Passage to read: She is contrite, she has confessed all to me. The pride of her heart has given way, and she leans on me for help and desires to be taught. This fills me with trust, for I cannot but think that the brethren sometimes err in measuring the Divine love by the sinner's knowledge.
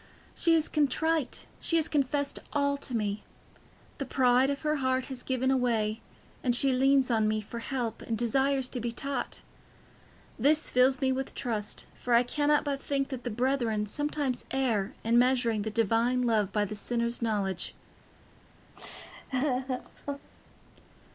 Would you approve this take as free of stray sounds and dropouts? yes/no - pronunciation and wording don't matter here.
no